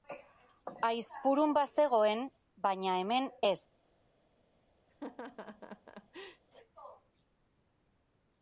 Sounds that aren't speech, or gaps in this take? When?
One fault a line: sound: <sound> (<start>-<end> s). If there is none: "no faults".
sound: laugh (4.9-6.4 s)